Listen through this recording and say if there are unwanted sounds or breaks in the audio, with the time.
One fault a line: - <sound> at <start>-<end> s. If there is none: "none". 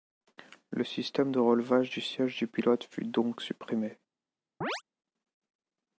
- chirp at 4.6-4.8 s